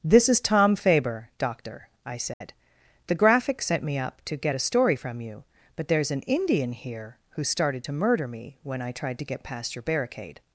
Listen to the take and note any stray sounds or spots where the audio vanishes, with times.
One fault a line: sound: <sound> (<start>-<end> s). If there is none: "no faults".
sound: dropout (2.3-2.4 s)